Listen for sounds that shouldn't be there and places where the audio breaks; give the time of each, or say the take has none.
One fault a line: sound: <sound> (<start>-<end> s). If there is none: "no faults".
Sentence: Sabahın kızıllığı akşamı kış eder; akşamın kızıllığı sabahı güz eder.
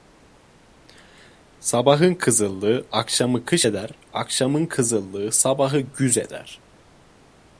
no faults